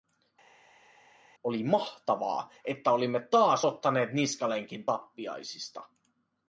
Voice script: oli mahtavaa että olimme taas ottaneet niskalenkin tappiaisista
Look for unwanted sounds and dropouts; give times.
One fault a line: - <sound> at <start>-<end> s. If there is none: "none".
none